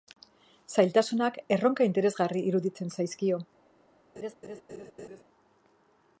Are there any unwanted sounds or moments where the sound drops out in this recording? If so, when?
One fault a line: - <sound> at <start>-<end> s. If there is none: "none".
- laugh at 4.2-5.2 s